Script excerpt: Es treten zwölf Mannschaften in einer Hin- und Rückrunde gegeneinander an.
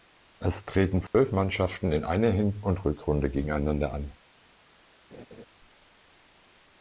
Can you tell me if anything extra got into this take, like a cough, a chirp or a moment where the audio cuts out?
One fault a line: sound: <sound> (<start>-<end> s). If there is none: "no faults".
sound: dropout (1.1-1.1 s)
sound: laugh (5.1-5.5 s)